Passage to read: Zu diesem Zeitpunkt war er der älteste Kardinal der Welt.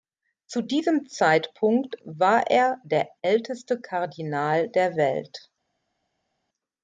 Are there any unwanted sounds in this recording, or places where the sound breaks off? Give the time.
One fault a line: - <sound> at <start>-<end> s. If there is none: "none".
none